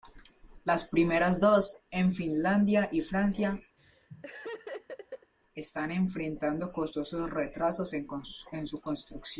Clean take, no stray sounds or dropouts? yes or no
no